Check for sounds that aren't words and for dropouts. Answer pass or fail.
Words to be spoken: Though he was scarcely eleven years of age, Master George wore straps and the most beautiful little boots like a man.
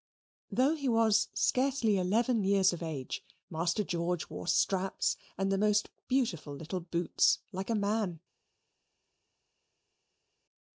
pass